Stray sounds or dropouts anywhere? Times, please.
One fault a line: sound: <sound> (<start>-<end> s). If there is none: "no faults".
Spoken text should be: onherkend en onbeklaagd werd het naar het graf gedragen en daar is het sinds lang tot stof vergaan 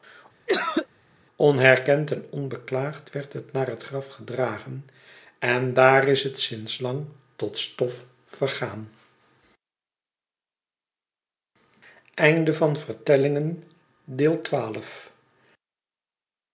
sound: cough (0.5-0.9 s)